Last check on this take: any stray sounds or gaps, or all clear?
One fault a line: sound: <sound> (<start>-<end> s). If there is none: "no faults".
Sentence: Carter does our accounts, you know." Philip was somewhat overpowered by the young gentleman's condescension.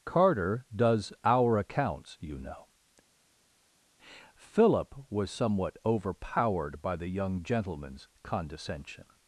no faults